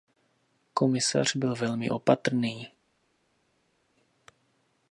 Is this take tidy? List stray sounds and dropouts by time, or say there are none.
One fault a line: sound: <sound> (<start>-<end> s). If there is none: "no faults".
no faults